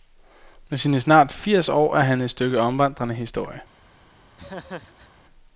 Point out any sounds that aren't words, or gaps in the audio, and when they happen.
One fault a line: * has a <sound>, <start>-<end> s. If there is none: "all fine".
* has a laugh, 4.4-5.1 s